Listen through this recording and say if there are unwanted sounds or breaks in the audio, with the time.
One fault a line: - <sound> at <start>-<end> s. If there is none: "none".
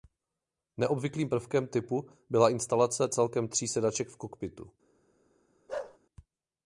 - bark at 5.7-6.0 s